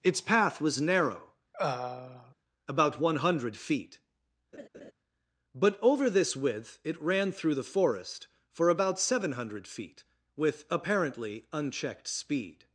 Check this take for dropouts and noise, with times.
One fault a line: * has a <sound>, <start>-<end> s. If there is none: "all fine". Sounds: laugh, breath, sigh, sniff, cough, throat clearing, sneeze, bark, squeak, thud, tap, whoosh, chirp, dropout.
* has a throat clearing, 1.5-2.4 s
* has a laugh, 4.5-4.9 s